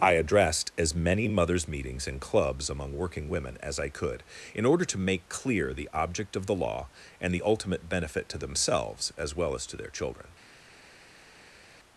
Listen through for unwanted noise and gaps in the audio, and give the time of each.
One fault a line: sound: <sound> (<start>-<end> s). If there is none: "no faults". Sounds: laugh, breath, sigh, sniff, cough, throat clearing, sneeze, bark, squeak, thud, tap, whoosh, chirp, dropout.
no faults